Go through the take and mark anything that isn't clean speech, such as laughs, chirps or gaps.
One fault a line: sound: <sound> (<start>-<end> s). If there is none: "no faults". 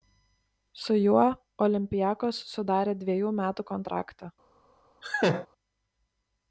sound: laugh (5.0-5.5 s)